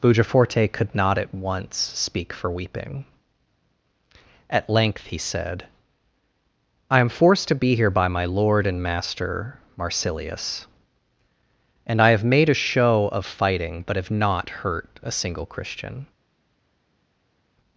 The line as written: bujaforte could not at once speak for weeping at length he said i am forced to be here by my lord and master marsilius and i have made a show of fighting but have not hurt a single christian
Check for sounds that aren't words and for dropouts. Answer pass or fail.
pass